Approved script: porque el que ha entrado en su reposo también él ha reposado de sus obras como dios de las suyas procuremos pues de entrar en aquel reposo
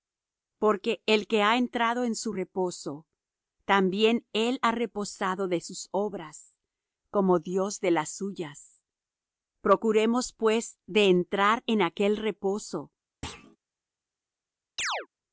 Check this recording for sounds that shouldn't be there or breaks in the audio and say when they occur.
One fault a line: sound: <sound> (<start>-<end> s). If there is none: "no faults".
sound: thud (13.2-13.6 s)
sound: chirp (14.8-15.1 s)